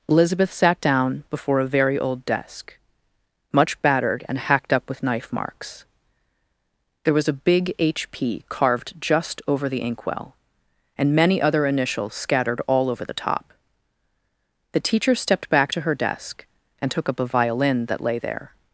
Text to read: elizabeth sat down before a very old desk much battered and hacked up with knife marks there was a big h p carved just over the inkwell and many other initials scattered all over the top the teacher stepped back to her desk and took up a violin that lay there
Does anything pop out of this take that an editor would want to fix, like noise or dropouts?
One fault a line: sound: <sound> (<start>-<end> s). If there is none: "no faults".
no faults